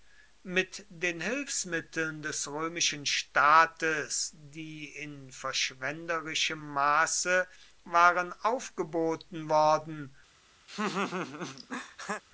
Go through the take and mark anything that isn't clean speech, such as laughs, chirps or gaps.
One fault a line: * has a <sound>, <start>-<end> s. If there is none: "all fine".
* has a laugh, 10.7-12.2 s